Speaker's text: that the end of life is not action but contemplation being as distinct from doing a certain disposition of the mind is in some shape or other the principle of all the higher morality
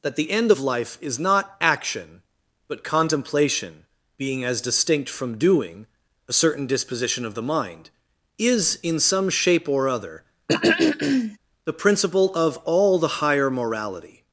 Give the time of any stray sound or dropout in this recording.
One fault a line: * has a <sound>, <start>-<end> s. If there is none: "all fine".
* has a throat clearing, 10.5-11.4 s